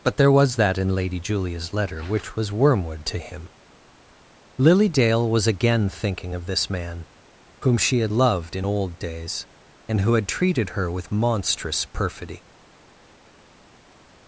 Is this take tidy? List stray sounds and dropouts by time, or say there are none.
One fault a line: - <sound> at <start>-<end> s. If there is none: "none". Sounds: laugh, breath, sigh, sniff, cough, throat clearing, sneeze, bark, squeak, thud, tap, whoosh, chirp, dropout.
none